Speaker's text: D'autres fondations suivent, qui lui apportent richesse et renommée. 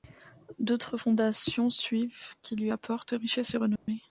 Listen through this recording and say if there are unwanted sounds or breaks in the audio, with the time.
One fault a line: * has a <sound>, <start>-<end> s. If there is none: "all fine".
* has a dropout, 3.8-3.9 s